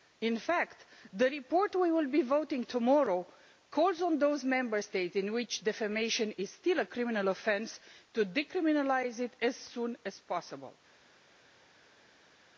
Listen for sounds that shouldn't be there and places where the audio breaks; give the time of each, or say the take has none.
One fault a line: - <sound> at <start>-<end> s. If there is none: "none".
none